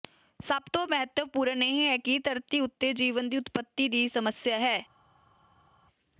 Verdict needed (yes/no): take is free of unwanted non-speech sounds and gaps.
yes